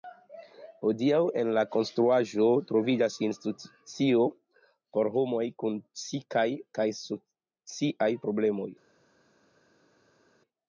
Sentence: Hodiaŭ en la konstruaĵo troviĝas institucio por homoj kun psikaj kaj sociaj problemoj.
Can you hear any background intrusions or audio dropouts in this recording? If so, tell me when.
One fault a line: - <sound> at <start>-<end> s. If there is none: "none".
none